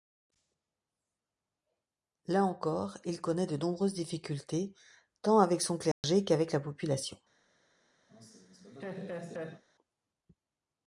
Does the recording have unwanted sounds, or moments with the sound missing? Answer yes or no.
yes